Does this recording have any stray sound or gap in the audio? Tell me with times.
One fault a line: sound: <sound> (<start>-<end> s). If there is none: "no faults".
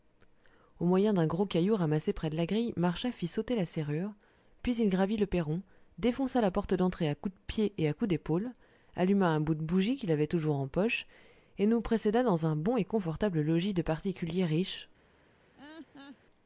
sound: laugh (15.6-16.2 s)